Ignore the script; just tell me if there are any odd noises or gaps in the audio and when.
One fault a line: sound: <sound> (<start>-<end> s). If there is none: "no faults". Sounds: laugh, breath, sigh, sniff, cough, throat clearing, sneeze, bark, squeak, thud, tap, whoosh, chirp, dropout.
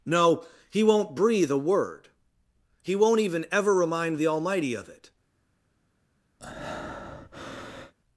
sound: breath (6.4-7.9 s)